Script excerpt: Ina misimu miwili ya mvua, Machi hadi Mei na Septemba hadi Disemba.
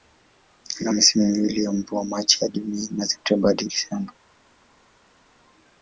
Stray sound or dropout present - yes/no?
no